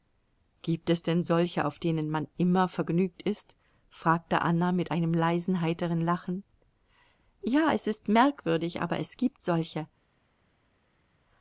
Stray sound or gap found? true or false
false